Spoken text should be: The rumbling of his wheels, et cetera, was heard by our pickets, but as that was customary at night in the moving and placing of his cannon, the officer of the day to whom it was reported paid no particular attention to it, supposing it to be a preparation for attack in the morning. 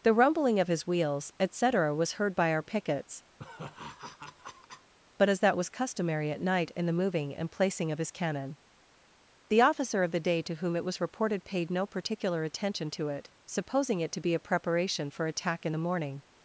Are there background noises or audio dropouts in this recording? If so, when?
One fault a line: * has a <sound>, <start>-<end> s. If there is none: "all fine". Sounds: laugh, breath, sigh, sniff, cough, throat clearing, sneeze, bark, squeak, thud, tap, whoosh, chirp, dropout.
* has a laugh, 3.4-4.9 s